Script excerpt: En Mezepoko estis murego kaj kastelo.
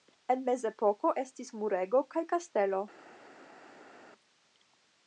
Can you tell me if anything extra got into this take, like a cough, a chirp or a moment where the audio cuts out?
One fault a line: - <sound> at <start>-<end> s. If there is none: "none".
none